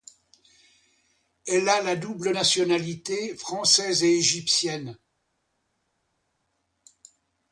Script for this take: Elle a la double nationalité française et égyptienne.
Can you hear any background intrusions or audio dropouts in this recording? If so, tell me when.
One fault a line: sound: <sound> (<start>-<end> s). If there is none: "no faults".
no faults